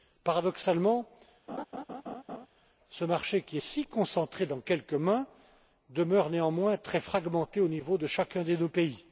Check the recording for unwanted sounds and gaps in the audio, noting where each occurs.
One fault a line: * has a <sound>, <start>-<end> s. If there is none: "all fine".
* has a laugh, 1.5-2.5 s